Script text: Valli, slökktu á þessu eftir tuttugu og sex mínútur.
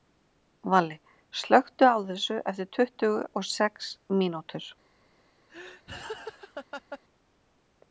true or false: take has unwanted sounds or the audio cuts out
true